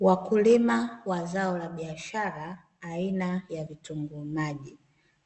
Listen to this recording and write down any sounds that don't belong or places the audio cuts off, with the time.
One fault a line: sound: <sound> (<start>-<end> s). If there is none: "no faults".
no faults